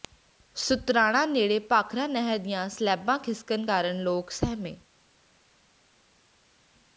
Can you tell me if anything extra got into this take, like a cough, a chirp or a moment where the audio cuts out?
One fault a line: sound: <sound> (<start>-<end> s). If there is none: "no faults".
no faults